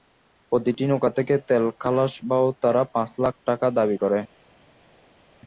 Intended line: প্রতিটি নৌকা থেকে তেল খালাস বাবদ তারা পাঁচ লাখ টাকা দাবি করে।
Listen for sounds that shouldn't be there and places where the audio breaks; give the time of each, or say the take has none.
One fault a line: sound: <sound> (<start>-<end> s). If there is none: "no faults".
no faults